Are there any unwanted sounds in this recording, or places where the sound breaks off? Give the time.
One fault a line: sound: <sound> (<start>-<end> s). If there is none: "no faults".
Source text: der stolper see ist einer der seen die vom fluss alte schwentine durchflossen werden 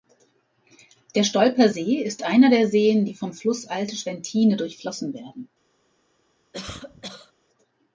sound: cough (6.5-7.3 s)